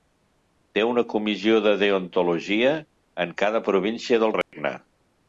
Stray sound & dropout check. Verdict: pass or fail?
fail